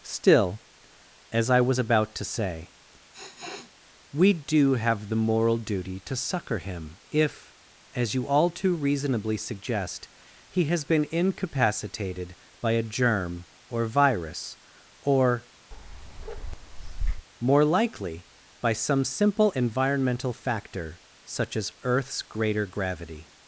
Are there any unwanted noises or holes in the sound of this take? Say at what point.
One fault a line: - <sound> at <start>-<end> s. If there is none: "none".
- sniff at 3.1-3.7 s
- bark at 15.7-17.3 s